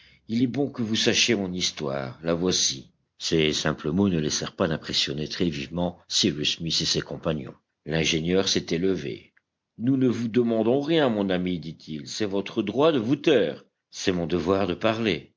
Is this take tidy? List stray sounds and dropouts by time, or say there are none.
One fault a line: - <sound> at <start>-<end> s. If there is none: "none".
none